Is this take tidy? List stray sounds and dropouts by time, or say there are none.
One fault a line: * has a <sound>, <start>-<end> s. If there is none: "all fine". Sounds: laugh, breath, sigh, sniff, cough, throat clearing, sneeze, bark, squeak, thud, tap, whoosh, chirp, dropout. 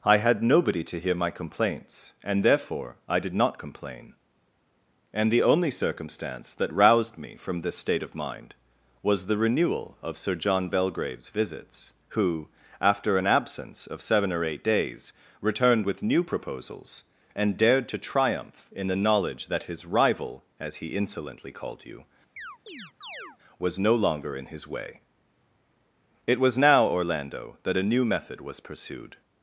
* has a chirp, 22.4-23.4 s